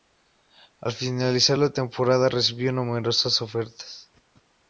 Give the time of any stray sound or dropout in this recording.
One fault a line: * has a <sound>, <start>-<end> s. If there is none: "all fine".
all fine